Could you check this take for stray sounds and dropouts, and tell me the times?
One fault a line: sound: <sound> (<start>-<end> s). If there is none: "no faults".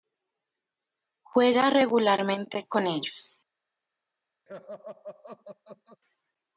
sound: laugh (4.5-6.0 s)